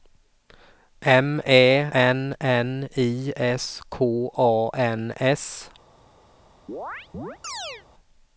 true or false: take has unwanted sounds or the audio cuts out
true